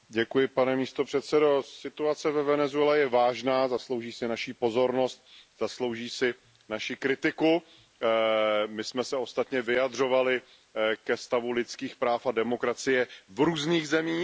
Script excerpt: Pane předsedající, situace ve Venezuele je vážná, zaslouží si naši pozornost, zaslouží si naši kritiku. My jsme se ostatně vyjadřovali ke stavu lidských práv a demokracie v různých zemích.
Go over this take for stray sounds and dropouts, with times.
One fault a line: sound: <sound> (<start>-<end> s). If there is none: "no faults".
no faults